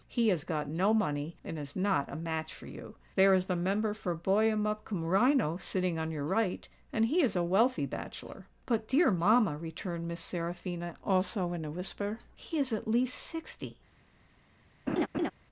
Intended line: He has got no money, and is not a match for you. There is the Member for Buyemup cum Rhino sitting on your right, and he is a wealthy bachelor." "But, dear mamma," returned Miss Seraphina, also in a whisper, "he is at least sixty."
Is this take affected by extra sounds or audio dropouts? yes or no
yes